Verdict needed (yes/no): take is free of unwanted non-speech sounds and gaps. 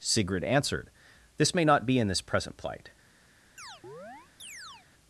no